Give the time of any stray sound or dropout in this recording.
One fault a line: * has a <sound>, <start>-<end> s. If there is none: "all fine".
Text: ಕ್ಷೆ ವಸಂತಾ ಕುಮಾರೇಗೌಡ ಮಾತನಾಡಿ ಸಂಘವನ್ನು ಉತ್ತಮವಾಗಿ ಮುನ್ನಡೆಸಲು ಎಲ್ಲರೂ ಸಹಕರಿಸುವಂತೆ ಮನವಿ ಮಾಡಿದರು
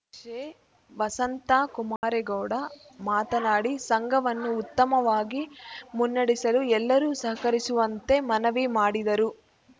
* has a dropout, 2.0-2.0 s